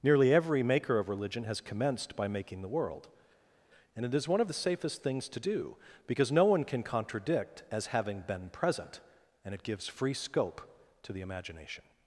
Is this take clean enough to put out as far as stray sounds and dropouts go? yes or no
yes